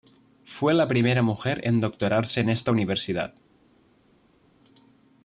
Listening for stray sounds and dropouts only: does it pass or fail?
pass